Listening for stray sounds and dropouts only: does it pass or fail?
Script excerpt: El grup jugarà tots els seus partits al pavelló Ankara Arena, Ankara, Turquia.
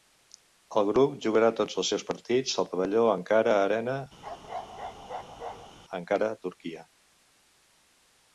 fail